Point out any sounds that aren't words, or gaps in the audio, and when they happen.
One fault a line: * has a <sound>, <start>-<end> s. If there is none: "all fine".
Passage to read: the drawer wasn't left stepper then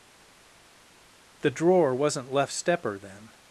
all fine